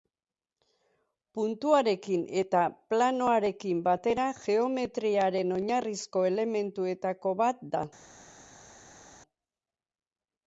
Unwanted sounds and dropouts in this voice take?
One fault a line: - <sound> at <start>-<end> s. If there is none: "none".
none